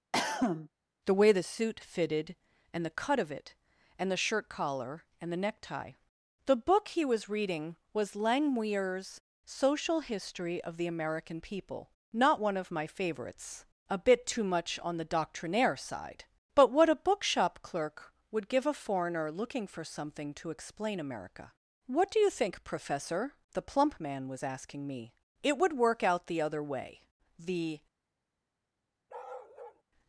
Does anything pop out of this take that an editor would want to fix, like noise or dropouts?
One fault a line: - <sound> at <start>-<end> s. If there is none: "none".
- cough at 0.1-0.7 s
- bark at 29.1-29.8 s